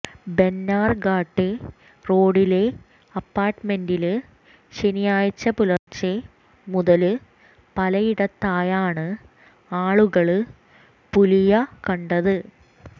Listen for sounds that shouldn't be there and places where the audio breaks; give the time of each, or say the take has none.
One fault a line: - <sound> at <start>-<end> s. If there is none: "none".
- dropout at 5.8-5.9 s